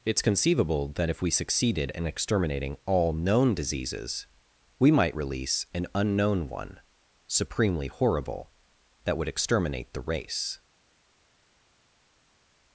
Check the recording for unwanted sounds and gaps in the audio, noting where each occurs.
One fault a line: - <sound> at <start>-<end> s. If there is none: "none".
none